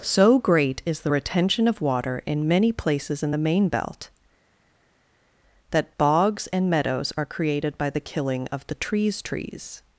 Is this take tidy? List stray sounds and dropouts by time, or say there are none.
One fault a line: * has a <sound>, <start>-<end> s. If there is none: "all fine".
all fine